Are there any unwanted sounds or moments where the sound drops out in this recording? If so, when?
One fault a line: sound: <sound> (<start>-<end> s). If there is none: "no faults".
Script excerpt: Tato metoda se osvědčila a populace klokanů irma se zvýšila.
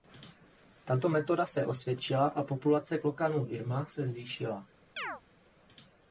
sound: chirp (5.0-5.2 s)